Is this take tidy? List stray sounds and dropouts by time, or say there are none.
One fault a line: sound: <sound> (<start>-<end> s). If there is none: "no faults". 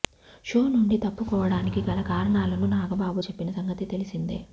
no faults